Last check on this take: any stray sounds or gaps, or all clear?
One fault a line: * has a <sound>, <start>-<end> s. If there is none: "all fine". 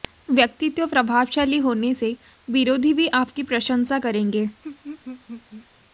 * has a laugh, 4.6-5.7 s